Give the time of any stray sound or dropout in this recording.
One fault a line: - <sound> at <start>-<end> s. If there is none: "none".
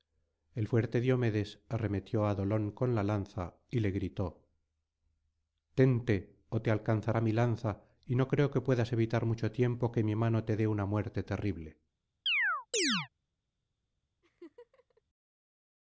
- chirp at 12.3-13.1 s
- laugh at 14.2-15.0 s